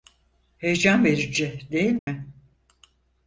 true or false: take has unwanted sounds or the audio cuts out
true